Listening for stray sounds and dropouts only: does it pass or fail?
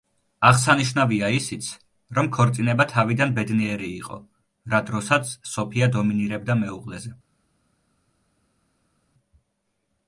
pass